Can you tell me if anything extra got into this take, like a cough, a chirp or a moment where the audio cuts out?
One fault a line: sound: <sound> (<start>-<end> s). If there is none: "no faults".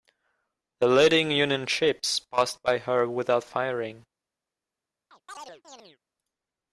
sound: chirp (5.1-6.0 s)